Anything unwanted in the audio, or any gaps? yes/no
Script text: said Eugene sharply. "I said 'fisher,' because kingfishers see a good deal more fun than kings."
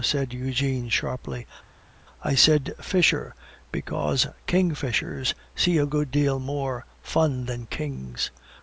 no